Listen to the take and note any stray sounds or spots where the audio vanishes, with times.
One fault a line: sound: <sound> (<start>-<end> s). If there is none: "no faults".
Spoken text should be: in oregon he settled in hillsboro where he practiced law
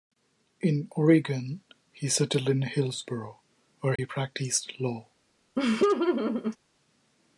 sound: dropout (4.0-4.0 s)
sound: laugh (5.6-6.6 s)